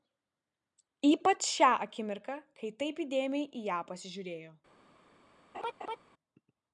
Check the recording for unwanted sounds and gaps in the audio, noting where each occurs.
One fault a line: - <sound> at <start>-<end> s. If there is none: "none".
- laugh at 5.5-6.0 s